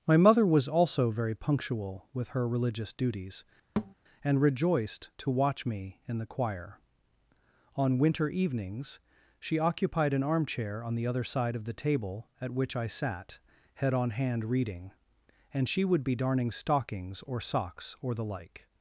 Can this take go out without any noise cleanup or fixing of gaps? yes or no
no